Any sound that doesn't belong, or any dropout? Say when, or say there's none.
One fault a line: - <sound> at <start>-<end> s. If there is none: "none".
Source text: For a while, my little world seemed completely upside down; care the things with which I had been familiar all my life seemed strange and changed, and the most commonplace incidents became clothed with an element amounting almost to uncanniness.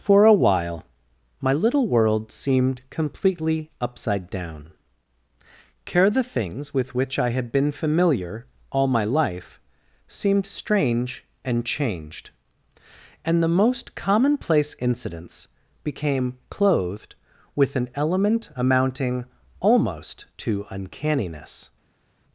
none